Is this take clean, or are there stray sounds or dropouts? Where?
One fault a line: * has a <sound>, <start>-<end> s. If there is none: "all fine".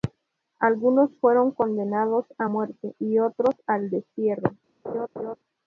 * has a laugh, 4.8-5.4 s